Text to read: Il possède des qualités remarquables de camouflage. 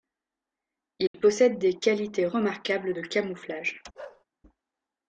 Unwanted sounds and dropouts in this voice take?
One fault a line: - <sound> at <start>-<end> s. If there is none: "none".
- dropout at 1.1-1.1 s
- bark at 3.9-4.2 s